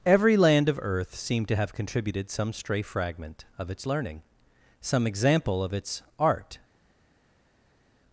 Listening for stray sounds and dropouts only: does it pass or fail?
pass